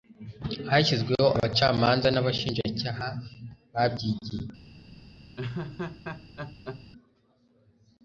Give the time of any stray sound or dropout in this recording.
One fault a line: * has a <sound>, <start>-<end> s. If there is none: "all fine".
* has a laugh, 5.4-6.9 s